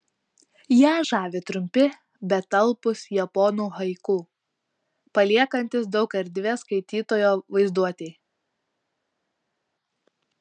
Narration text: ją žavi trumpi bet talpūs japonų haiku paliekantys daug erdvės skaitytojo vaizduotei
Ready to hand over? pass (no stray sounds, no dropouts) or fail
pass